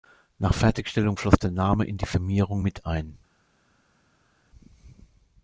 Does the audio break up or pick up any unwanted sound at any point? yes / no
no